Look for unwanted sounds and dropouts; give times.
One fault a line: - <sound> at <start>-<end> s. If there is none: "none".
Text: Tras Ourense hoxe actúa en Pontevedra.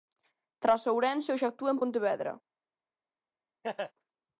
- laugh at 3.6-3.9 s